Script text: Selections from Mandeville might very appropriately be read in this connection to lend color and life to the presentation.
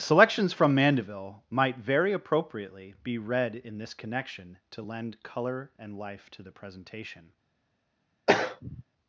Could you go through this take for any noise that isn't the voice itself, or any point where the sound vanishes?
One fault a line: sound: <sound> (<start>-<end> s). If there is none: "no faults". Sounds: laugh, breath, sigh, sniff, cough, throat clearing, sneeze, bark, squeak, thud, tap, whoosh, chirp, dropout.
sound: throat clearing (8.3-8.8 s)